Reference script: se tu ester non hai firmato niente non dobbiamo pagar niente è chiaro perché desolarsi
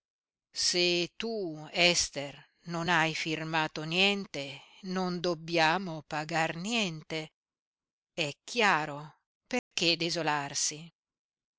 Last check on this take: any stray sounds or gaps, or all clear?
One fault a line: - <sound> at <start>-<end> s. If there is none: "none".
- dropout at 9.6-9.7 s